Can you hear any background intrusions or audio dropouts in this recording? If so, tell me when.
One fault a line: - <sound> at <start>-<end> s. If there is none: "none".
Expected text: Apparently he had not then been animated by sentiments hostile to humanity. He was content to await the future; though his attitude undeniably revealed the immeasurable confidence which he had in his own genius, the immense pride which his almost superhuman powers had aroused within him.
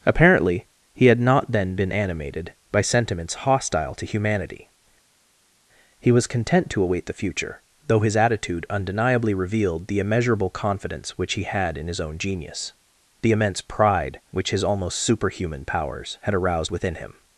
none